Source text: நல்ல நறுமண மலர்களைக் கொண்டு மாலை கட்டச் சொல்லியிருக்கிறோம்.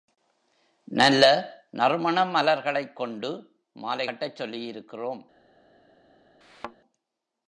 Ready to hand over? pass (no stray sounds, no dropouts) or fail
fail